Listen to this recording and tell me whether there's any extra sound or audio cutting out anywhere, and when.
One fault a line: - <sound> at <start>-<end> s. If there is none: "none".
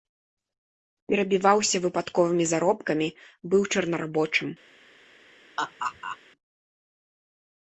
- laugh at 5.6-6.2 s